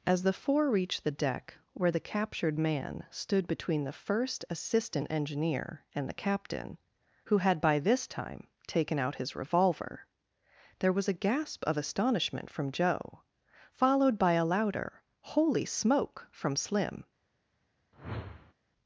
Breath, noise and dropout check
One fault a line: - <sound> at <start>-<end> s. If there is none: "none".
- whoosh at 17.9-18.5 s